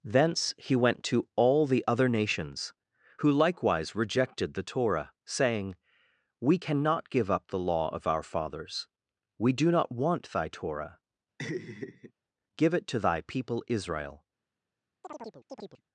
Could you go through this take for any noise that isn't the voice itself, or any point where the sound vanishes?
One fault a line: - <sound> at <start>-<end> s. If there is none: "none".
- laugh at 11.4-12.1 s
- chirp at 15.0-15.8 s